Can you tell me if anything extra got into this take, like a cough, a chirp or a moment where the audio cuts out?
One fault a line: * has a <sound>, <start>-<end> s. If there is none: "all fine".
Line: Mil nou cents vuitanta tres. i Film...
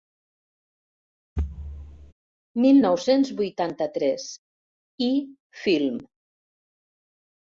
* has a thud, 1.4-2.1 s